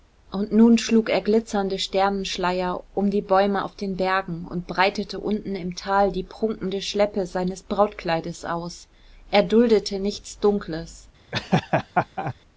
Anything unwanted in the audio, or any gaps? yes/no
yes